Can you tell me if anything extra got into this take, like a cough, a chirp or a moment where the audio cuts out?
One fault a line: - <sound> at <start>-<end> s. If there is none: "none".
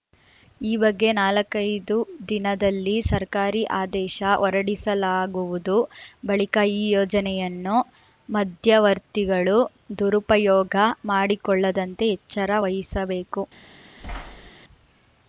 - thud at 14.0-14.5 s